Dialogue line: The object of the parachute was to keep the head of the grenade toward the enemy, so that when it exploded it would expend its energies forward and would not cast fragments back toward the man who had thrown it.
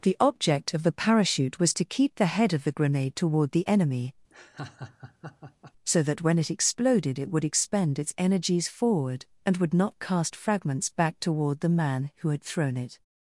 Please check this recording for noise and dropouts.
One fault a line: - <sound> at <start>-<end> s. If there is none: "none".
- laugh at 4.3-5.7 s